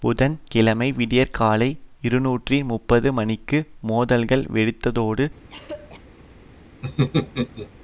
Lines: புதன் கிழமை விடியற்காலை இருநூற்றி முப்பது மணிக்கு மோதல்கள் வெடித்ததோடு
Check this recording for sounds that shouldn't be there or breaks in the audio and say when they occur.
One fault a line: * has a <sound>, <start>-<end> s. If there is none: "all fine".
* has a throat clearing, 5.5-6.0 s
* has a laugh, 6.8-7.7 s